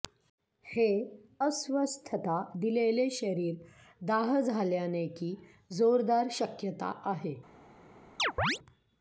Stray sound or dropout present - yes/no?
yes